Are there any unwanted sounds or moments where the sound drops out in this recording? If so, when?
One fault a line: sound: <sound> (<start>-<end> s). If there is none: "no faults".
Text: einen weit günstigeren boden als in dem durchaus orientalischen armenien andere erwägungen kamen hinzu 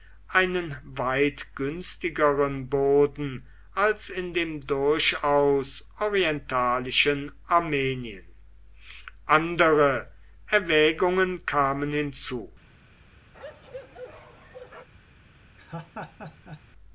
sound: bark (13.3-14.9 s)
sound: laugh (15.6-16.6 s)